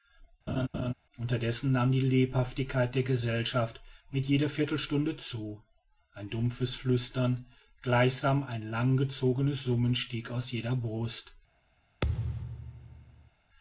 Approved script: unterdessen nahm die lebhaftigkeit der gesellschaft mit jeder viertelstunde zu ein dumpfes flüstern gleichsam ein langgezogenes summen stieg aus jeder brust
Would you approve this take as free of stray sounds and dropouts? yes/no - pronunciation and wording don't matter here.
no